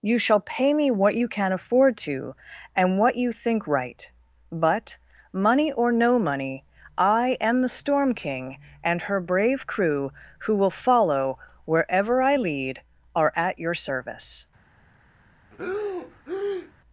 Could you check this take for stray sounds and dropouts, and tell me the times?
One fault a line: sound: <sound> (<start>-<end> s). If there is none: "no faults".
sound: breath (15.5-16.7 s)